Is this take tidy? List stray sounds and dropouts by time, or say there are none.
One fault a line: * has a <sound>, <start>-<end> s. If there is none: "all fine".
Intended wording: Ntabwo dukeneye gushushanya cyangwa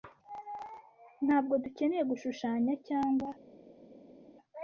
all fine